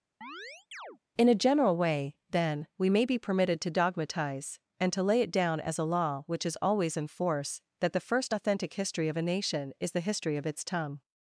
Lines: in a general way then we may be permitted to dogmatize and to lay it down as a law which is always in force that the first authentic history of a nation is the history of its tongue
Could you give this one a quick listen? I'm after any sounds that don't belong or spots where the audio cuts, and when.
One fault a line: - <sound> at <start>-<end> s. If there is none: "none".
- chirp at 0.2-1.0 s